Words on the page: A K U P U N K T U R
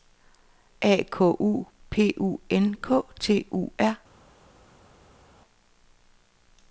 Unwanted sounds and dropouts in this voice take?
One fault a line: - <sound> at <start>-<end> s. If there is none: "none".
none